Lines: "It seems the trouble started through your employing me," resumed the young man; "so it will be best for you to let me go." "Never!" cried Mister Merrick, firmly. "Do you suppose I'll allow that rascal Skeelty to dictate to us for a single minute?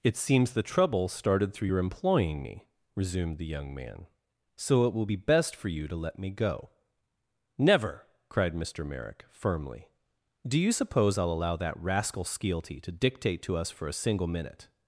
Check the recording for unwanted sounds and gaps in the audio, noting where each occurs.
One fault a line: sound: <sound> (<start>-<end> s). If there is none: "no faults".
no faults